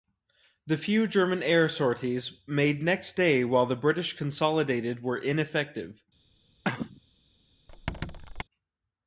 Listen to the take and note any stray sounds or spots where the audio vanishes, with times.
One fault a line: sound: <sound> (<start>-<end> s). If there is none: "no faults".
sound: cough (6.6-7.0 s)
sound: squeak (7.7-8.4 s)